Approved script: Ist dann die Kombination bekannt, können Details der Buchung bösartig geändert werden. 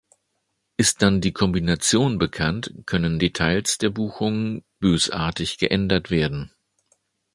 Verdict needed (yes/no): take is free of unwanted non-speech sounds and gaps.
yes